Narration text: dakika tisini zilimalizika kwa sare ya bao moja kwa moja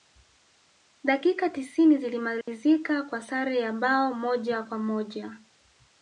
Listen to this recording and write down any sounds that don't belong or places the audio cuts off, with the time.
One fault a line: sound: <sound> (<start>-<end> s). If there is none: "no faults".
sound: dropout (2.4-2.5 s)